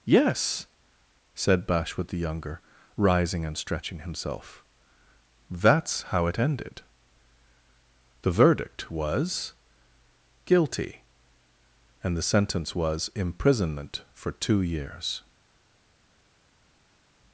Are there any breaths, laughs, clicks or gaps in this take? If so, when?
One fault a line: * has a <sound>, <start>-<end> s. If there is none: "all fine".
all fine